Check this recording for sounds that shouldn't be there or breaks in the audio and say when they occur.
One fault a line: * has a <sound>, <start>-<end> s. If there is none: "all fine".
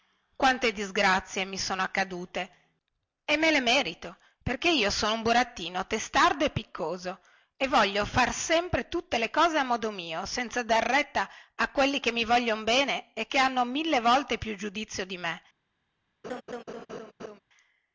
* has a laugh, 16.2-17.4 s